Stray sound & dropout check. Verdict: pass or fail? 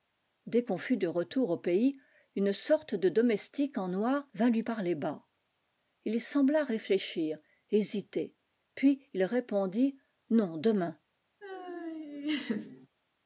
fail